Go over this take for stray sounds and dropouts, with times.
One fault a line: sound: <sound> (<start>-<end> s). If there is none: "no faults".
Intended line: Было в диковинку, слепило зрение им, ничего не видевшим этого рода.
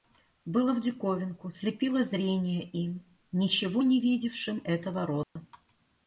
sound: dropout (5.2-5.4 s)